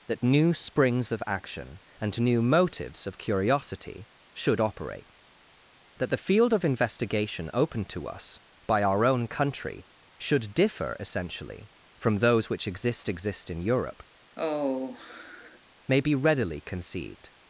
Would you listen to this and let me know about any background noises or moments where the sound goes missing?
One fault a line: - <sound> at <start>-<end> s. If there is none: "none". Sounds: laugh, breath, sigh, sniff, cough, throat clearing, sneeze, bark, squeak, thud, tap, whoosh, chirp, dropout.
- sigh at 14.4-15.6 s